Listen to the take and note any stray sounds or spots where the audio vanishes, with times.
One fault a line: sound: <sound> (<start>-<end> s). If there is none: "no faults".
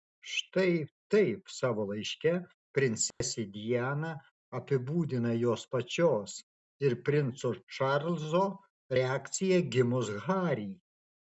sound: dropout (3.1-3.2 s)